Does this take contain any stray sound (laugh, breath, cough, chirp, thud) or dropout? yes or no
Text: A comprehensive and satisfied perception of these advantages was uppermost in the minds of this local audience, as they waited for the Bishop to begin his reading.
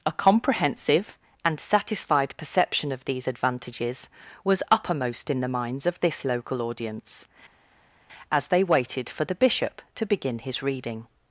no